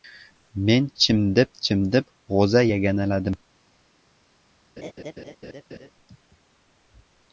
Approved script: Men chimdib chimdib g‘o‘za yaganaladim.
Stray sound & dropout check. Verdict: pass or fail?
fail